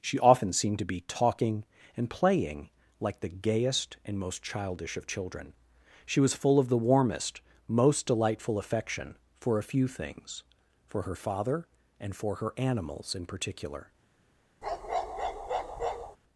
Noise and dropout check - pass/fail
fail